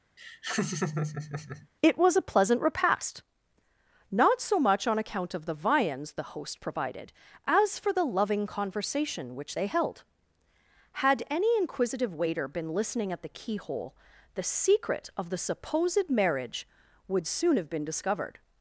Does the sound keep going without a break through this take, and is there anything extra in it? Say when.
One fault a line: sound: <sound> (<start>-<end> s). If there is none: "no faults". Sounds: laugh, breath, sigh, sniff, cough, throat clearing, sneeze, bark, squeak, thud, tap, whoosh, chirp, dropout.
sound: laugh (0.2-1.7 s)